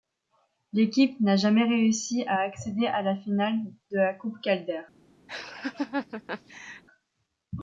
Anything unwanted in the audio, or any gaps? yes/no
yes